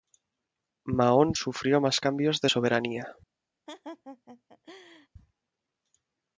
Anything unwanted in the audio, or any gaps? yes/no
yes